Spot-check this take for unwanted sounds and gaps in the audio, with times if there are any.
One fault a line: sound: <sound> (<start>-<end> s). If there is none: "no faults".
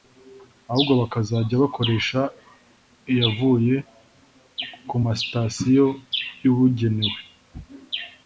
no faults